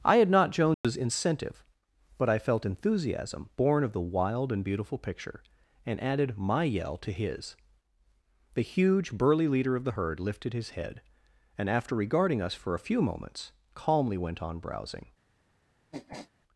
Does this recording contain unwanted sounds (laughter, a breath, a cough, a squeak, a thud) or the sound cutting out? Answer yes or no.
yes